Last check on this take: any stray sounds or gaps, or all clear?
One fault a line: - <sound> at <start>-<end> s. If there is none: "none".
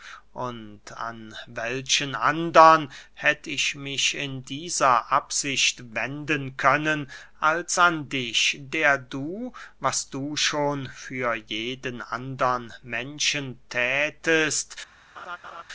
- laugh at 15.2-15.6 s